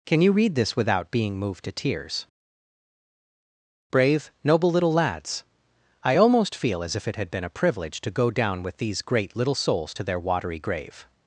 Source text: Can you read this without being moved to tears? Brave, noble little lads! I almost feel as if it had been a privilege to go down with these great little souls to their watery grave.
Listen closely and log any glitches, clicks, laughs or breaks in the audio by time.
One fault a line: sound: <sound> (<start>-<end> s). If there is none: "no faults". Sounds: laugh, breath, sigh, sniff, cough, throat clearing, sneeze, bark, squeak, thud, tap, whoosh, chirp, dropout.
no faults